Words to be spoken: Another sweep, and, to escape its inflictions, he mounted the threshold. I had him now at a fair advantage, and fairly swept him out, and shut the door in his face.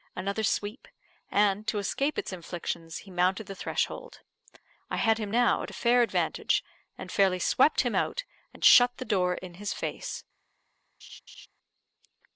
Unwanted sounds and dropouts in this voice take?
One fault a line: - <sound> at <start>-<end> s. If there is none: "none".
- laugh at 11.0-11.5 s